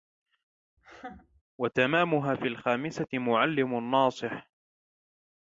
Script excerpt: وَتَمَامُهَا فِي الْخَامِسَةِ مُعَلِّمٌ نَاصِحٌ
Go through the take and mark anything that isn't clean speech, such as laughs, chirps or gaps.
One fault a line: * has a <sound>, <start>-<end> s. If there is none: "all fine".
* has a laugh, 0.8-1.4 s